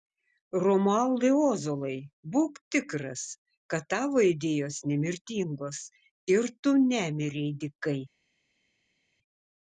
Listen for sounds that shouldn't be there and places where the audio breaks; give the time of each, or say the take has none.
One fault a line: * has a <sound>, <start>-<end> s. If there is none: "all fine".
all fine